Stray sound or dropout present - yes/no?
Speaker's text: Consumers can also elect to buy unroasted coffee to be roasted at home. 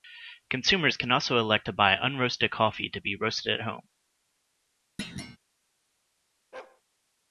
yes